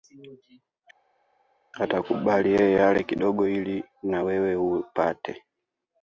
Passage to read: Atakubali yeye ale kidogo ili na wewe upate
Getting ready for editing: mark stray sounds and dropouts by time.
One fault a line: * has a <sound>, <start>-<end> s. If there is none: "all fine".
all fine